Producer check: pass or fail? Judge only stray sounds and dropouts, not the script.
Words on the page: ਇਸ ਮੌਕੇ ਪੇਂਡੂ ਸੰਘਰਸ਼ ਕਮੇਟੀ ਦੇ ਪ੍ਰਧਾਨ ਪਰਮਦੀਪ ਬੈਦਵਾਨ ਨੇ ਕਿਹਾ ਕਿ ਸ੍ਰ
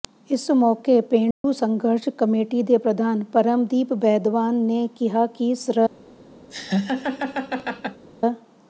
fail